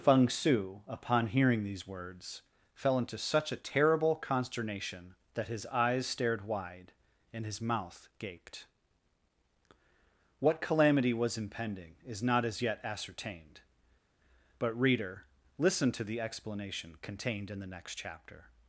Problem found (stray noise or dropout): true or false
false